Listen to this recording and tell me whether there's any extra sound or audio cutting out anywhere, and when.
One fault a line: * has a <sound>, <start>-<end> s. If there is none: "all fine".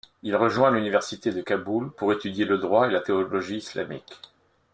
all fine